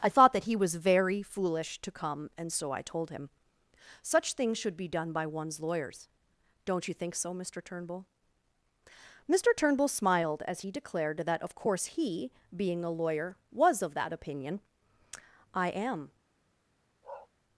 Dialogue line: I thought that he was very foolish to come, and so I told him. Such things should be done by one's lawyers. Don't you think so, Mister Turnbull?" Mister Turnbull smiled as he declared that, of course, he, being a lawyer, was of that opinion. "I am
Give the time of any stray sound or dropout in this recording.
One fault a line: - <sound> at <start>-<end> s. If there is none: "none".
- bark at 17.0-17.3 s